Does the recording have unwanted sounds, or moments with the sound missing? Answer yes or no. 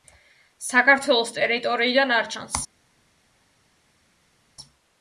no